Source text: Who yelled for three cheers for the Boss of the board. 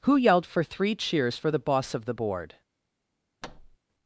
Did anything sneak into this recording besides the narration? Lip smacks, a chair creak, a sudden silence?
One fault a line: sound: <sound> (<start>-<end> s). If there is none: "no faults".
sound: thud (3.4-3.8 s)